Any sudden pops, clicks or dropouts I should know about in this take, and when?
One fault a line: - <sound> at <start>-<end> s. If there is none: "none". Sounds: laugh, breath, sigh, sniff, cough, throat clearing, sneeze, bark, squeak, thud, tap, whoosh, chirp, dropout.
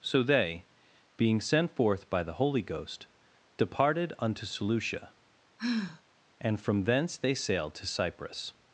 - sigh at 5.6-6.0 s